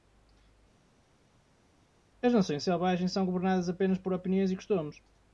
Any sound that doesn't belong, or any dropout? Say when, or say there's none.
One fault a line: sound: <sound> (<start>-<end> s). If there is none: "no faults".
no faults